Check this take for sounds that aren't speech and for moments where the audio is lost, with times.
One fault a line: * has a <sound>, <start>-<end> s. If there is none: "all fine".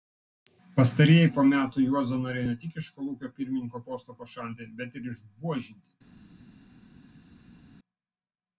all fine